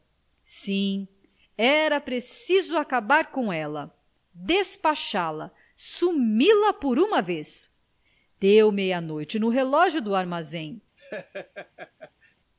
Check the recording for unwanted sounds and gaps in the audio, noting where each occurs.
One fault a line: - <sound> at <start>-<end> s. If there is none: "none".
- laugh at 11.0-12.4 s